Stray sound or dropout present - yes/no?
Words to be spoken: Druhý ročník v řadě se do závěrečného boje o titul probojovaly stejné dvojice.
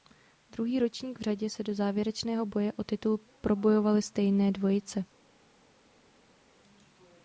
no